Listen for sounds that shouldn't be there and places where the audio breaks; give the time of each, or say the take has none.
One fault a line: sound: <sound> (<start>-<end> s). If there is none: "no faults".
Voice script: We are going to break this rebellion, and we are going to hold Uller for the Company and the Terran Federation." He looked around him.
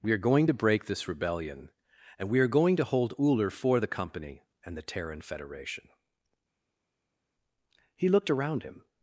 no faults